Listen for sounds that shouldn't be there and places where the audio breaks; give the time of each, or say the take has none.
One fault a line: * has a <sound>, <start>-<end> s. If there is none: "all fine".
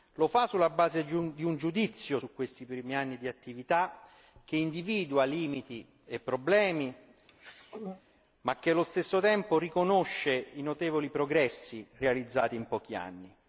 * has a throat clearing, 7.3-8.0 s